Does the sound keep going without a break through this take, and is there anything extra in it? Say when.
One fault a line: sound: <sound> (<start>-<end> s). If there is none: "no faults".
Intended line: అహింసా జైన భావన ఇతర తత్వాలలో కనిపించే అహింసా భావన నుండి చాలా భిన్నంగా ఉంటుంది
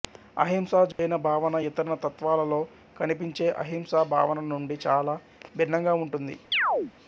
sound: dropout (0.9-1.0 s)
sound: chirp (6.5-6.9 s)